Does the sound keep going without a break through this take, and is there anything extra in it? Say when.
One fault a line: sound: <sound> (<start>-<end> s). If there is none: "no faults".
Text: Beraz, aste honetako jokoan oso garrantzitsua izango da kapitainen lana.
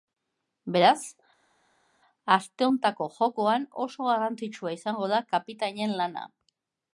no faults